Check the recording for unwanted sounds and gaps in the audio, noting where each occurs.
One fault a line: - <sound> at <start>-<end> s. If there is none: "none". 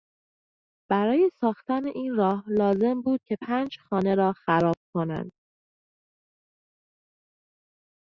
none